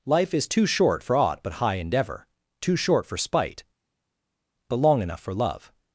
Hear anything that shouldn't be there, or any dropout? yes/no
no